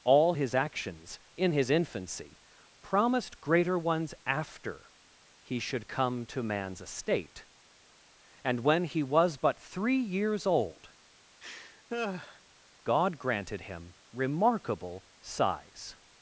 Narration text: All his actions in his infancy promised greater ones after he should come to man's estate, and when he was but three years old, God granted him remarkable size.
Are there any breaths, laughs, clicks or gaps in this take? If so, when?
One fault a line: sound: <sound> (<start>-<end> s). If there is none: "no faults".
sound: laugh (11.4-12.4 s)